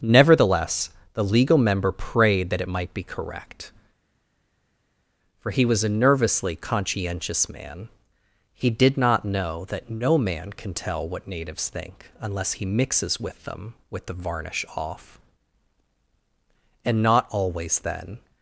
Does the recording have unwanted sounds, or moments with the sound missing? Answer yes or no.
no